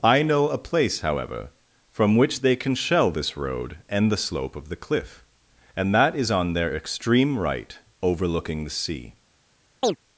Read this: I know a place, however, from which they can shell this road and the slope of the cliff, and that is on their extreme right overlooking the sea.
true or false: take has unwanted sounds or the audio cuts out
true